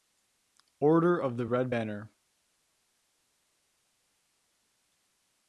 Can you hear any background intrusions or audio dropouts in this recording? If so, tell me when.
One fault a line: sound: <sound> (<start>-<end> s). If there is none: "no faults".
no faults